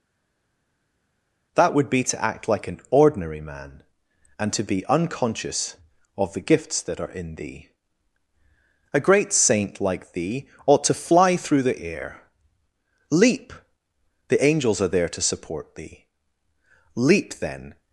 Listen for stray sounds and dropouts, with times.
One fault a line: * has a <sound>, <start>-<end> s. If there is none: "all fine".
all fine